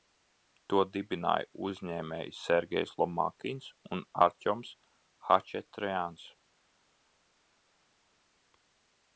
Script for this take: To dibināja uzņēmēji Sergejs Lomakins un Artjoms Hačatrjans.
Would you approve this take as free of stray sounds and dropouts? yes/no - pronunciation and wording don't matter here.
yes